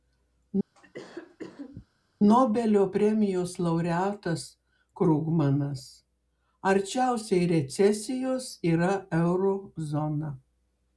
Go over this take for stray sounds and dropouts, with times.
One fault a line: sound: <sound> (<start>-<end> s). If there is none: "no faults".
sound: cough (0.7-1.9 s)